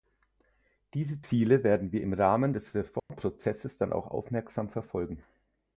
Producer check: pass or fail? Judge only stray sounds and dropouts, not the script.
fail